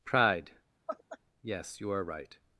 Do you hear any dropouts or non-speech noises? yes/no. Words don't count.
yes